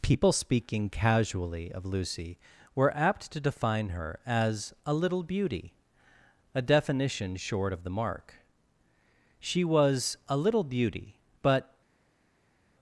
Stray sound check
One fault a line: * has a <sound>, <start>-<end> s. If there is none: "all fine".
all fine